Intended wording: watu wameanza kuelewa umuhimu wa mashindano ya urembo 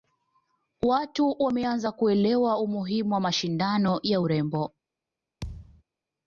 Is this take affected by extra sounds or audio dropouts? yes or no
yes